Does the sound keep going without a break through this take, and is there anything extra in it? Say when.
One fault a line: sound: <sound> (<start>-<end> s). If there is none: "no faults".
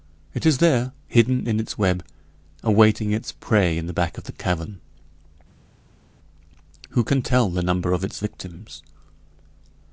no faults